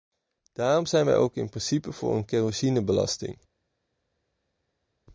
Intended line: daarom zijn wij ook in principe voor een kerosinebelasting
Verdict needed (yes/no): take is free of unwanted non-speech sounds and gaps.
yes